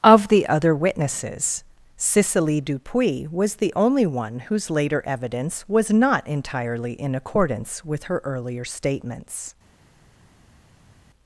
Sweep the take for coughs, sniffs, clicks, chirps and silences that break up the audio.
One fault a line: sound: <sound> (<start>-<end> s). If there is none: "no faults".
no faults